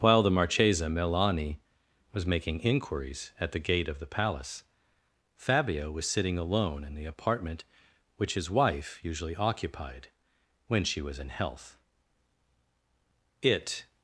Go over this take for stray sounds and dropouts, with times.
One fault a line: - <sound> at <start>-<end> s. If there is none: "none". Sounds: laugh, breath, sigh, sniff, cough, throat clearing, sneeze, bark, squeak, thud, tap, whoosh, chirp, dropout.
none